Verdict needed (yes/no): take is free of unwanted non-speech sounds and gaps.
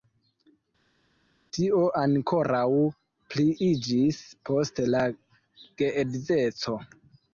yes